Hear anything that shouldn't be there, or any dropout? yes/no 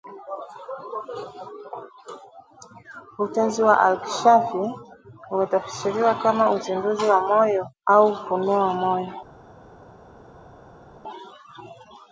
no